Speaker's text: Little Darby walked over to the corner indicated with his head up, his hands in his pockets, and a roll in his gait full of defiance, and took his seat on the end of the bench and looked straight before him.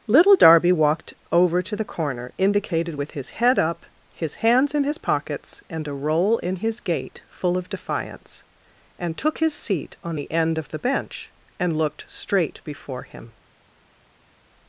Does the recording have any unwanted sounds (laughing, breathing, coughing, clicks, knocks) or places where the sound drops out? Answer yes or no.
no